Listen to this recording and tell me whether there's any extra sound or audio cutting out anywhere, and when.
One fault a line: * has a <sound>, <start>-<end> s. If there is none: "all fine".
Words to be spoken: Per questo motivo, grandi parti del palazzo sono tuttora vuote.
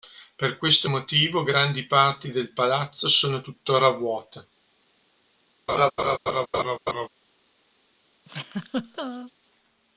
* has a laugh, 5.7-7.1 s
* has a laugh, 8.3-9.3 s